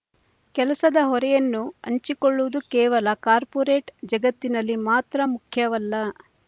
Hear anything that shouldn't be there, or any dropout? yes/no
no